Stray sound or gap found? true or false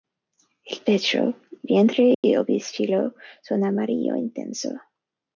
true